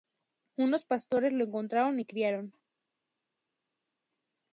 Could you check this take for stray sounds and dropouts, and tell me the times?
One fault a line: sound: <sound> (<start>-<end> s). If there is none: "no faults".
no faults